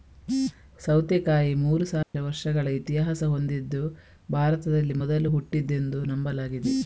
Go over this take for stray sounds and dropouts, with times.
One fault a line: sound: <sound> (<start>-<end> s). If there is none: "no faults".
sound: dropout (2.0-2.1 s)